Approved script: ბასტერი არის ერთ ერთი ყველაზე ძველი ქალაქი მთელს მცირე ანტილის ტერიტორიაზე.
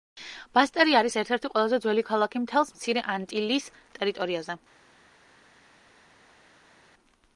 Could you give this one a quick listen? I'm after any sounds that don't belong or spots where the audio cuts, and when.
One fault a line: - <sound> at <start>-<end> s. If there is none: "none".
none